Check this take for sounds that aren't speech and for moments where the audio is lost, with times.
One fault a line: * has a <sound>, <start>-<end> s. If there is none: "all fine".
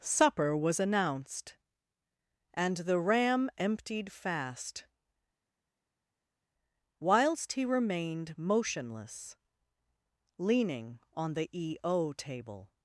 all fine